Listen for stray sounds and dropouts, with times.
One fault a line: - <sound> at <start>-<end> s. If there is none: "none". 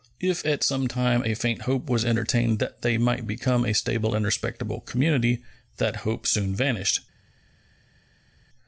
none